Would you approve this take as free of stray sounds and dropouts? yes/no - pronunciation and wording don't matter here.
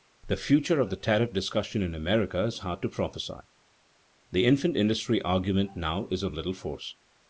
yes